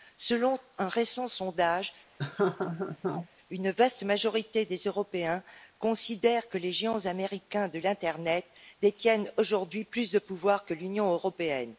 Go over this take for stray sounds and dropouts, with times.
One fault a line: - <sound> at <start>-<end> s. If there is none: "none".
- laugh at 2.2-3.3 s